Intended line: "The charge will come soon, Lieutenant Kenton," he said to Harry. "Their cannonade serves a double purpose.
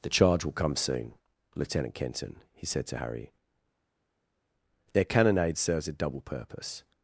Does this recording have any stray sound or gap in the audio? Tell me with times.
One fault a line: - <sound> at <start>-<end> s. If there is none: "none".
none